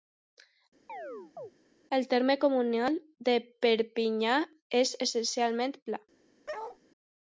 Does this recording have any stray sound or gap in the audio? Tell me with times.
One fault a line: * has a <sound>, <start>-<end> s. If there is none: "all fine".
* has a chirp, 0.9-1.5 s
* has a bark, 6.5-6.8 s